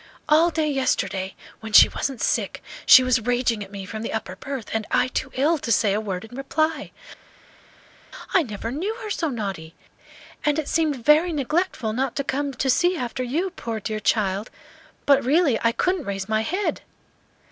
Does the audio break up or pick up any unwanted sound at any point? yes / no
no